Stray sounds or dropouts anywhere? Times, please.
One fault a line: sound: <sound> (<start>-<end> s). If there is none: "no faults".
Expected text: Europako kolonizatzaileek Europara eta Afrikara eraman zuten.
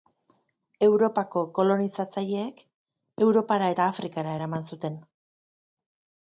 no faults